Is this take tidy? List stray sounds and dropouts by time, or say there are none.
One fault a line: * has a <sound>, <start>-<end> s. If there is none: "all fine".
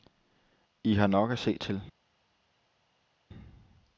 all fine